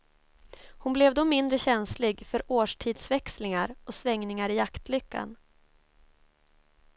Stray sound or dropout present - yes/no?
no